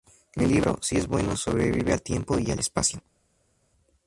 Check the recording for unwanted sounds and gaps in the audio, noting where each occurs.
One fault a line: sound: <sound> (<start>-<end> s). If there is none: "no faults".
no faults